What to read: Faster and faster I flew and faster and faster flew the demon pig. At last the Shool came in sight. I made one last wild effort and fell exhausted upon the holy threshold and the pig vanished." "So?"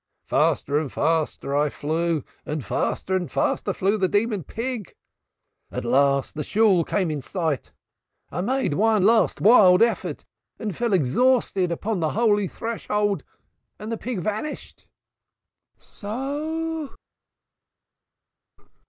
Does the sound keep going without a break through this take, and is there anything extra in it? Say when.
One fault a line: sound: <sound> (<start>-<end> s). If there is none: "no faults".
no faults